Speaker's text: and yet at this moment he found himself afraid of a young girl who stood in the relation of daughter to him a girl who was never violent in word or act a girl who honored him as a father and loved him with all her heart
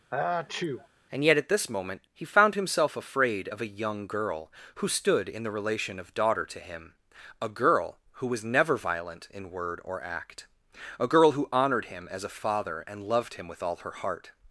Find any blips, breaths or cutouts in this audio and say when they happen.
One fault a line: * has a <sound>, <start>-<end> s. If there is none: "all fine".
* has a sneeze, 0.1-0.9 s